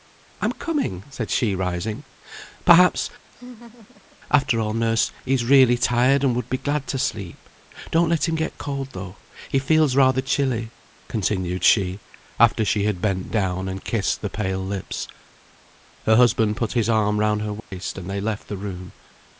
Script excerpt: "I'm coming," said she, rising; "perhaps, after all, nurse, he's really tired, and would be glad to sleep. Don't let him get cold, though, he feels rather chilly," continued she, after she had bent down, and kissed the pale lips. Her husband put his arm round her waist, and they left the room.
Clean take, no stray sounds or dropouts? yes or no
no